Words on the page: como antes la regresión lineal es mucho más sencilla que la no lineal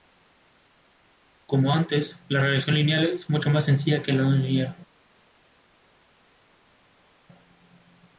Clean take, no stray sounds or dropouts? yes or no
yes